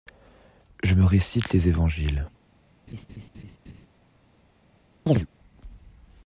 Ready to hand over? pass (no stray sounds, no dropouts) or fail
fail